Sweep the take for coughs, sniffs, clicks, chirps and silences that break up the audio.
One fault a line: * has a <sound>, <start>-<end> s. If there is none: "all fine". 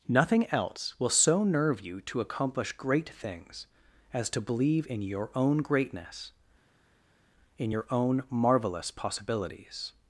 all fine